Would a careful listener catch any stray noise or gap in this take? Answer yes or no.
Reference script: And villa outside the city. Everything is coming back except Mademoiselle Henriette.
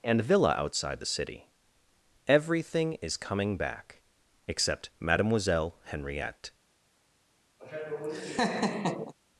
yes